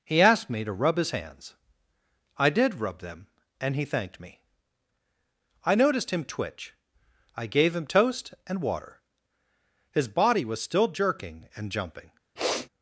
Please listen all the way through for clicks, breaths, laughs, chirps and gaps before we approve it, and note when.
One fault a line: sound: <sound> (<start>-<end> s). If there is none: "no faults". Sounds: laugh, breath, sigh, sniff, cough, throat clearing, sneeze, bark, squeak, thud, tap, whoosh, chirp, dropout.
sound: sniff (12.4-12.7 s)